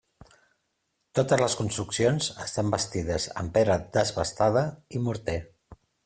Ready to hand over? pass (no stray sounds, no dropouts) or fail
pass